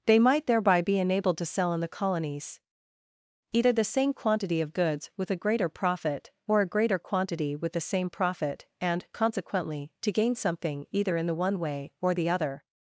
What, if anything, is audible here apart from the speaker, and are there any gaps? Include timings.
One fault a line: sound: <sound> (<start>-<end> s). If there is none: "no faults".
no faults